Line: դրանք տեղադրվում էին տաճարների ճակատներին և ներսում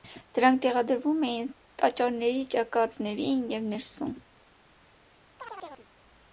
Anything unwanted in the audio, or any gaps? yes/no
yes